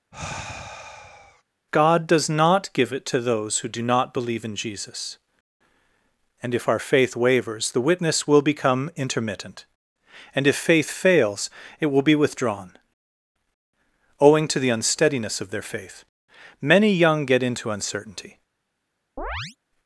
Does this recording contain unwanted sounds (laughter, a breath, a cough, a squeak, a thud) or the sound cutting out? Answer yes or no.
yes